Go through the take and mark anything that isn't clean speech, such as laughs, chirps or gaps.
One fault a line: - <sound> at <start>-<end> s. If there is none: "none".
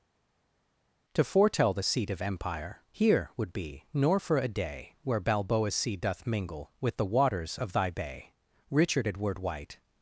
none